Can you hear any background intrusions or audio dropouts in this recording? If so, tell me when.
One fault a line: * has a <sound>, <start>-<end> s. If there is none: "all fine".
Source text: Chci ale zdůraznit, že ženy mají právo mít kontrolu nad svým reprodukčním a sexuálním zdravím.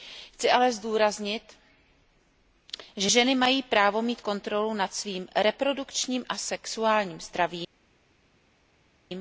all fine